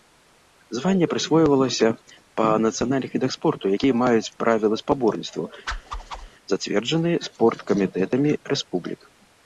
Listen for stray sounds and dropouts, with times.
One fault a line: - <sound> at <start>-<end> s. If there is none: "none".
- whoosh at 5.7-6.3 s